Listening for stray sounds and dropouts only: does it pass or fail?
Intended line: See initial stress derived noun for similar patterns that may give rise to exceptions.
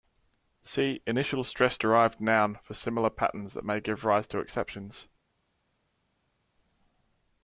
pass